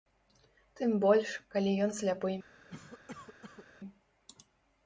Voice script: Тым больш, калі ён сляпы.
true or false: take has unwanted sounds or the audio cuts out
true